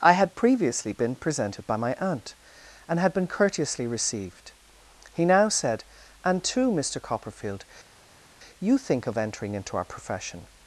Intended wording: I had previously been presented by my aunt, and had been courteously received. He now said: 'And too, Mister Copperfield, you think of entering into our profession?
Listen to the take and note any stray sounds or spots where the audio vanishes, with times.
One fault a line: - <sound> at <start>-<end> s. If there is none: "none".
none